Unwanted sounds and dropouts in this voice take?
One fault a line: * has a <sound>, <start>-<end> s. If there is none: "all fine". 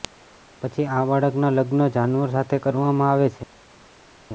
all fine